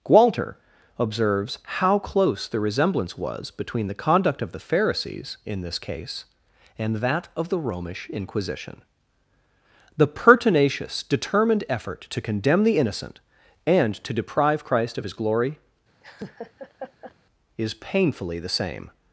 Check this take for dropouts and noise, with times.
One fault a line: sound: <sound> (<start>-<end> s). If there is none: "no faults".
sound: laugh (16.0-17.1 s)